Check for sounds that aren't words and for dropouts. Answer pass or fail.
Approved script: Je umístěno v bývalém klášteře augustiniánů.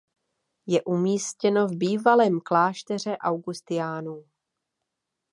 pass